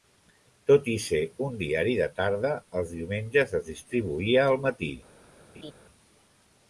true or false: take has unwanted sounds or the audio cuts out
true